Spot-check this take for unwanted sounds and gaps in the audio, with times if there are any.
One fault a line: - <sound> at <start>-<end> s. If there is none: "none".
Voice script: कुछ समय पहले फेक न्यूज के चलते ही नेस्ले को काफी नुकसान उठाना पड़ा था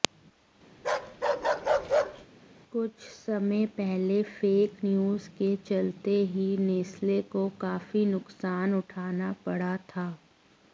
- bark at 0.8-2.3 s